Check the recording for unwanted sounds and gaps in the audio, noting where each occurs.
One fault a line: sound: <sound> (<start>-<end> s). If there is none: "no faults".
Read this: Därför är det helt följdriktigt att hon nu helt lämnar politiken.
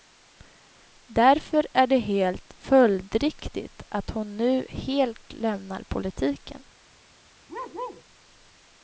sound: bark (7.5-8.0 s)